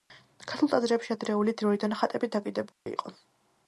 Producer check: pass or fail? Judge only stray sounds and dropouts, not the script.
fail